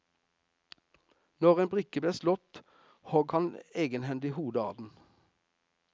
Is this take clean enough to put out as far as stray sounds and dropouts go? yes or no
yes